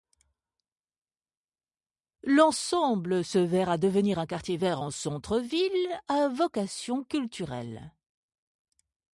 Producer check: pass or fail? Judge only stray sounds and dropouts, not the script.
pass